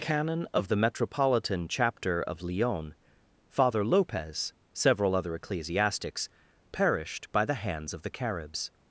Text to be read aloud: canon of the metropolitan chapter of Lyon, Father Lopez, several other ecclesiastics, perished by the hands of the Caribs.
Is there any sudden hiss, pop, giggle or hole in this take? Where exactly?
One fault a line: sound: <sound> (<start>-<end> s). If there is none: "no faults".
no faults